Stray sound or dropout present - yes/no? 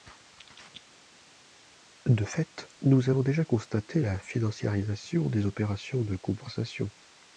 no